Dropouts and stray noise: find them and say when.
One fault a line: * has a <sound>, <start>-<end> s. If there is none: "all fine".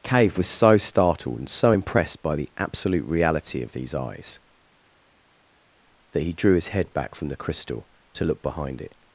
all fine